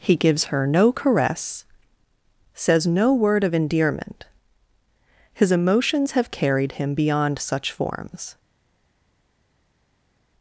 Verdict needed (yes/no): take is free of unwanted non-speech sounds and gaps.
yes